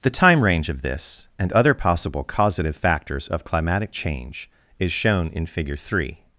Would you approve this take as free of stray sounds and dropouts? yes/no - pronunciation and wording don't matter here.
yes